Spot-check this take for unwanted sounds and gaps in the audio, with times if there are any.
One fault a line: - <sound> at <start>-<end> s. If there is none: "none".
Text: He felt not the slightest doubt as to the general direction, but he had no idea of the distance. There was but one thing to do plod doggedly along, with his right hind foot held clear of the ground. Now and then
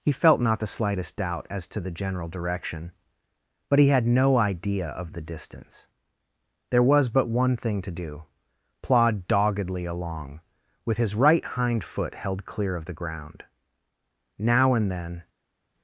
none